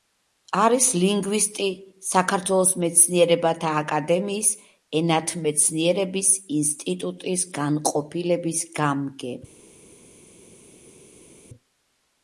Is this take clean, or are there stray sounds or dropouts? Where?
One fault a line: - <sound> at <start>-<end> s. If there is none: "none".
none